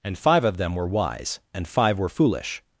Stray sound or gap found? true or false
false